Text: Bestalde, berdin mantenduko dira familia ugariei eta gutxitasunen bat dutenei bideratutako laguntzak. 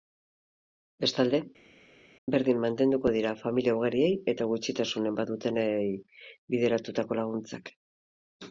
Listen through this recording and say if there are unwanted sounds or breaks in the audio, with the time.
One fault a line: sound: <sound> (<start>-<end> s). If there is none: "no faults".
no faults